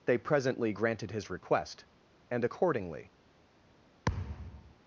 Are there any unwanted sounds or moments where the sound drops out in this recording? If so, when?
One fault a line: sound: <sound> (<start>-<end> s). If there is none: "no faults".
sound: thud (4.0-4.7 s)